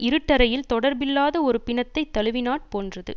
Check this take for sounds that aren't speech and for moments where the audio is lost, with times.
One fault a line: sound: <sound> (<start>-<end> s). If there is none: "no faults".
no faults